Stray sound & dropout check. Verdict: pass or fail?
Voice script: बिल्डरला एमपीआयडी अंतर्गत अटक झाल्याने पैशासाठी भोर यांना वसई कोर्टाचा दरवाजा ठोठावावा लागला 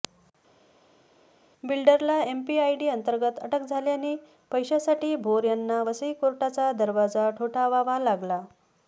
pass